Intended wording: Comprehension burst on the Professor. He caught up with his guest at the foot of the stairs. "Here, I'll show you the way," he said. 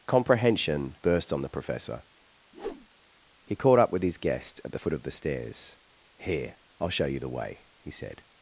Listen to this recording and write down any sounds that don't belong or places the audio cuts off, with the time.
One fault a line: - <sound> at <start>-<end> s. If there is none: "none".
- whoosh at 2.5-2.9 s